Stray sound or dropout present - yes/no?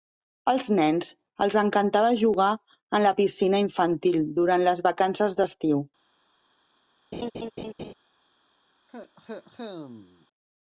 yes